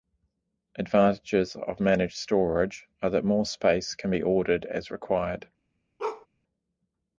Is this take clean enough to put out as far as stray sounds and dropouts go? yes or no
no